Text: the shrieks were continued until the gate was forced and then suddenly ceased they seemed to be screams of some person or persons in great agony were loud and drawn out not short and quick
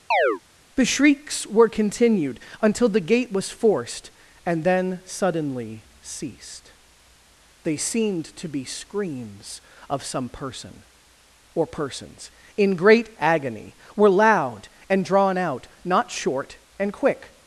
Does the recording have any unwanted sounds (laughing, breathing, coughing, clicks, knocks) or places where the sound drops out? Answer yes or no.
yes